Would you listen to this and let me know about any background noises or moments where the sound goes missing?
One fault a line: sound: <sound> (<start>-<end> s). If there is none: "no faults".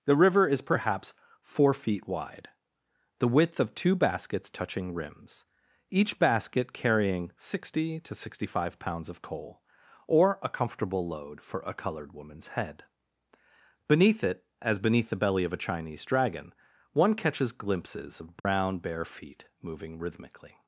sound: dropout (18.4-18.4 s)